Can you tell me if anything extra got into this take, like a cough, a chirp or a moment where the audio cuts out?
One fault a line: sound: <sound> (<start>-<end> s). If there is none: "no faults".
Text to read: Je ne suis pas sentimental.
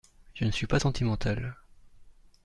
no faults